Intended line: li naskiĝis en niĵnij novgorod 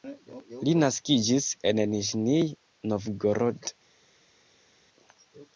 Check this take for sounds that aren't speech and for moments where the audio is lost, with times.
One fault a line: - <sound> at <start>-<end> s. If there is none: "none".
none